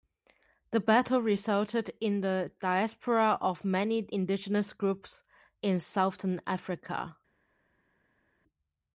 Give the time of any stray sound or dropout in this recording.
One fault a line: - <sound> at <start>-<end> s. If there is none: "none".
none